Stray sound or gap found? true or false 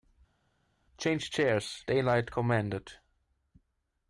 false